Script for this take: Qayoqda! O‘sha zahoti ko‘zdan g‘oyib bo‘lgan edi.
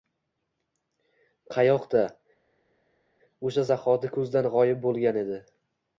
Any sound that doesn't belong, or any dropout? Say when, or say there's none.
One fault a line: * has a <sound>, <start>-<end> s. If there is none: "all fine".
all fine